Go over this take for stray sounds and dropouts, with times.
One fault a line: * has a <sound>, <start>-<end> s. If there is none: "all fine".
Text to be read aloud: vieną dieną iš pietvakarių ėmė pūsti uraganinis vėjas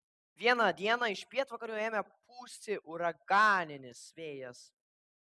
all fine